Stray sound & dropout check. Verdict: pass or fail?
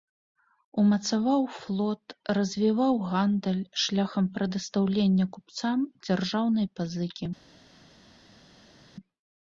pass